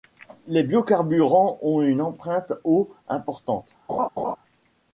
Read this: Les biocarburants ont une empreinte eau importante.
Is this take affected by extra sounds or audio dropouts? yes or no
yes